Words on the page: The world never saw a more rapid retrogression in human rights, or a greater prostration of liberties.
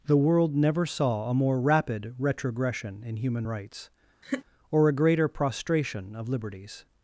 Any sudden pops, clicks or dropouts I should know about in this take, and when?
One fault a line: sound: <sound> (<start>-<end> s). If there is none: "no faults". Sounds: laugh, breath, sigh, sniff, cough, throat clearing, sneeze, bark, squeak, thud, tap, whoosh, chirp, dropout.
sound: laugh (4.2-4.5 s)